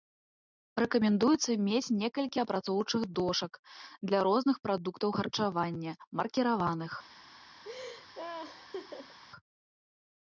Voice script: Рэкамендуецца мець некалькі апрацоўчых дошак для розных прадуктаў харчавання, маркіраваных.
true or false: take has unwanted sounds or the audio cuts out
true